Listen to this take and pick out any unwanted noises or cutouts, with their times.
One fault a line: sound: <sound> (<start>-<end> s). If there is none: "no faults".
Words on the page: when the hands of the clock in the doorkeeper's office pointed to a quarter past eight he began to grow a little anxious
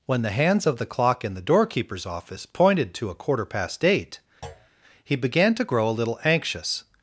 sound: thud (4.4-4.7 s)